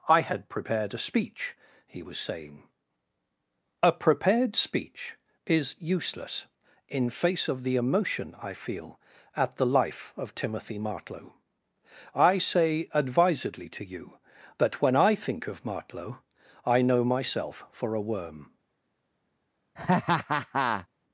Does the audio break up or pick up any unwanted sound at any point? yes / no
yes